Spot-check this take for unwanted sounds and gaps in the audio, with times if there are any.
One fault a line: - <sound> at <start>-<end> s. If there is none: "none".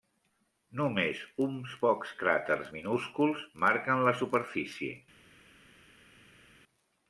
none